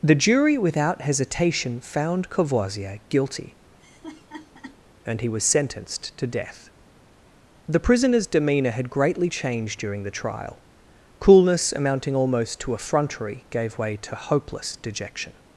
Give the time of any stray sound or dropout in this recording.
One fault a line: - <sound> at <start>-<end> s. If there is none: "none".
- laugh at 3.8-4.8 s